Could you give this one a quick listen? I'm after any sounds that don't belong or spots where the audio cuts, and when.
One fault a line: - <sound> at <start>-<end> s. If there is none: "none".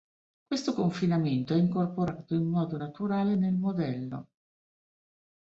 none